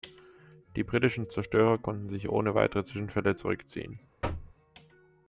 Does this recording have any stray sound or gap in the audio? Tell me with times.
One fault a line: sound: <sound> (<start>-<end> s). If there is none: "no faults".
sound: thud (4.2-4.6 s)